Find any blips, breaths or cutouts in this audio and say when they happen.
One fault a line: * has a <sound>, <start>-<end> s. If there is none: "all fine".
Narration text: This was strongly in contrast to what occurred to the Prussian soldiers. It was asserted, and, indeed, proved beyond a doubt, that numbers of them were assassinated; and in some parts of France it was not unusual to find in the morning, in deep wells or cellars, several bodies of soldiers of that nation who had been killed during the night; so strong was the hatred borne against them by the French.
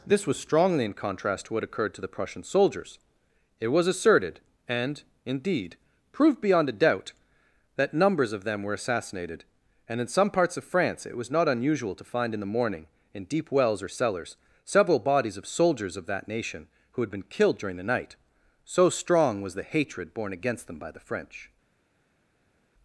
all fine